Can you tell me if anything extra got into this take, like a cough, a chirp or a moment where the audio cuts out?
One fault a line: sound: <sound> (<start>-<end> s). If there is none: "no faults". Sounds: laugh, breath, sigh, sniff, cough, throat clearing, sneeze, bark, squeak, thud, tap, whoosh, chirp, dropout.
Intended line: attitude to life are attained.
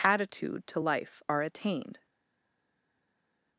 no faults